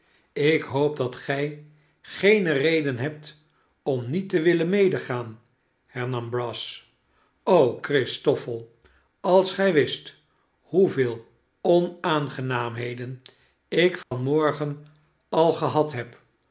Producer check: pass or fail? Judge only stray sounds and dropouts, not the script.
fail